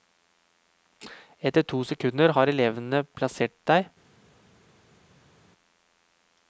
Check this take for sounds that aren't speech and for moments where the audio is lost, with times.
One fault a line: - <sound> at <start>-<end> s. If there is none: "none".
none